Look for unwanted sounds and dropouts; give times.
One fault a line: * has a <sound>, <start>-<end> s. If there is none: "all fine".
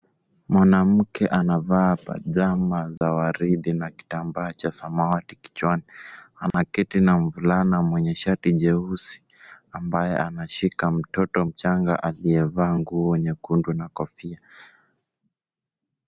* has a dropout, 3.0-3.0 s
* has a dropout, 6.5-6.5 s